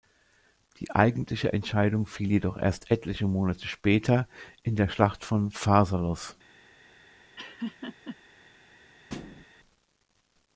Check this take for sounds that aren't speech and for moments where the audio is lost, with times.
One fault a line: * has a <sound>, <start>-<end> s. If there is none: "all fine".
* has a laugh, 7.4-8.2 s
* has a thud, 9.1-9.4 s